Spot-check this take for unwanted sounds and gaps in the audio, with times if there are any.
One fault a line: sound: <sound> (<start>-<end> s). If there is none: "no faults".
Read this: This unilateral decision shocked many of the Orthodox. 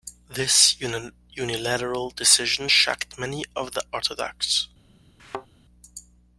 sound: thud (5.2-5.5 s)